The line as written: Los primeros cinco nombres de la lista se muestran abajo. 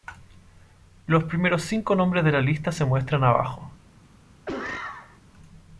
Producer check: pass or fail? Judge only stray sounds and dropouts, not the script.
fail